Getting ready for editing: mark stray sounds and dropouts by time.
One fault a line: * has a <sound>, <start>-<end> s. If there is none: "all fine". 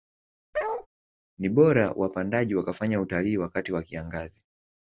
* has a bark, 0.5-0.9 s